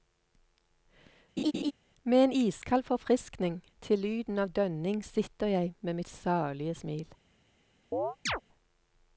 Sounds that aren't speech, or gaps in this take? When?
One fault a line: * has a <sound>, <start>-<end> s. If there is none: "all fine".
* has a laugh, 1.4-1.7 s
* has a chirp, 7.9-8.4 s